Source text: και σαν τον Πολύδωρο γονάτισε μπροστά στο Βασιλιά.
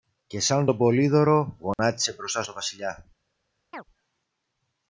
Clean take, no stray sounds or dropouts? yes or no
no